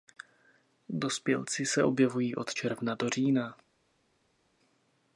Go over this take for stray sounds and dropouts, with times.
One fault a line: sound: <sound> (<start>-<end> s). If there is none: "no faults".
no faults